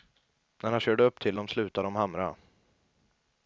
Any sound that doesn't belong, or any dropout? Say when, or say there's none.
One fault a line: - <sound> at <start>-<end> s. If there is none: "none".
none